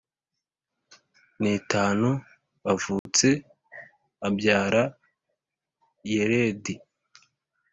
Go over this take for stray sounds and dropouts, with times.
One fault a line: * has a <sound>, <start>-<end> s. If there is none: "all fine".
* has a dropout, 3.0-3.1 s